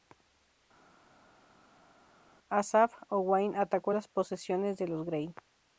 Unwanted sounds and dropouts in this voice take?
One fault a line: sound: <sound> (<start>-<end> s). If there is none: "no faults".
no faults